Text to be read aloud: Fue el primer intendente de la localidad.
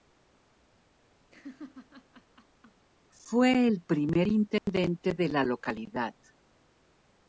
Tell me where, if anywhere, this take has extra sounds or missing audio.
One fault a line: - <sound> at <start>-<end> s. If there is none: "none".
- laugh at 1.3-2.9 s
- dropout at 4.6-4.7 s